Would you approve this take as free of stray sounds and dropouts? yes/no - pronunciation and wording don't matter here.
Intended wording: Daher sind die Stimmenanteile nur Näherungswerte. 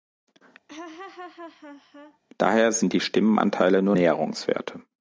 no